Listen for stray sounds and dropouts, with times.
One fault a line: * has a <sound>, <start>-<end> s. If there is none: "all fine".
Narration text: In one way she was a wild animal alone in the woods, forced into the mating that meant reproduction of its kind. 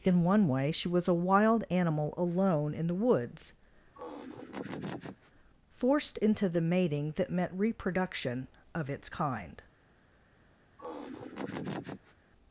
* has a laugh, 3.9-5.3 s
* has a laugh, 10.8-12.1 s